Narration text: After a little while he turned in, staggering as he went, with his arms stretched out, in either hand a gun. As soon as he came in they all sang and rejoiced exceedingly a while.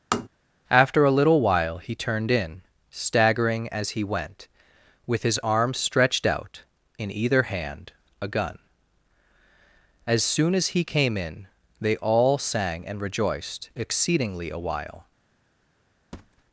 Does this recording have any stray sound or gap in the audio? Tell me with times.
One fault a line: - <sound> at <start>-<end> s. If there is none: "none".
- tap at 0.1-0.3 s
- thud at 16.1-16.4 s